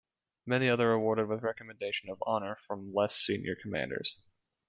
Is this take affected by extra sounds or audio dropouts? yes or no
no